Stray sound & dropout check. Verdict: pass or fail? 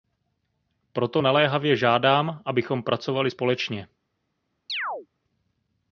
fail